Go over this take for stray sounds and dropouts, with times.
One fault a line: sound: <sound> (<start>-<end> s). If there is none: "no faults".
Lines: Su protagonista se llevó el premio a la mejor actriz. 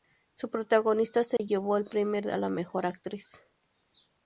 sound: dropout (1.4-1.4 s)